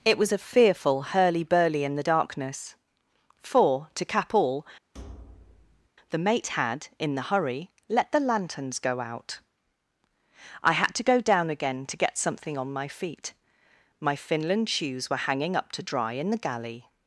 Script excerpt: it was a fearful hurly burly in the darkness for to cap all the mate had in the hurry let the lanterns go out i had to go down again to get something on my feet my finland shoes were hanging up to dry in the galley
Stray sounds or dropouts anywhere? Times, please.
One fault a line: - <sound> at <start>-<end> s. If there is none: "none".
- thud at 4.9-5.9 s